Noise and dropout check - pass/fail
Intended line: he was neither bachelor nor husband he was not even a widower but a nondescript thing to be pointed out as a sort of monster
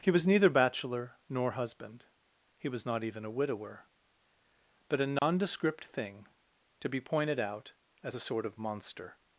fail